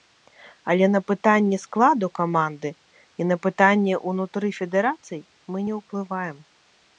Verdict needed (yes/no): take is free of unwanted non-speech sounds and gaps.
yes